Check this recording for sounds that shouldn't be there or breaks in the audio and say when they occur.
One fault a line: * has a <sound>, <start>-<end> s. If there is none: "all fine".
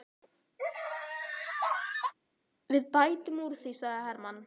* has a laugh, 0.6-2.1 s